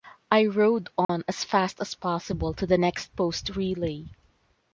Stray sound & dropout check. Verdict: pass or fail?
fail